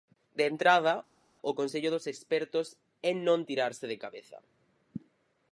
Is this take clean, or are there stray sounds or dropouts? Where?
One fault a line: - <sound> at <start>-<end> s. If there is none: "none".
none